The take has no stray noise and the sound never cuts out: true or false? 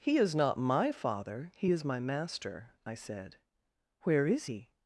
true